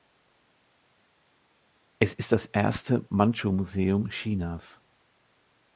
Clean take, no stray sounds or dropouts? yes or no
yes